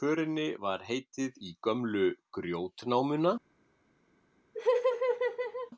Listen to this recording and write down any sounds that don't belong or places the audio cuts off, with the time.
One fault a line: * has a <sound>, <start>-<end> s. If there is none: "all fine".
* has a laugh, 4.5-5.7 s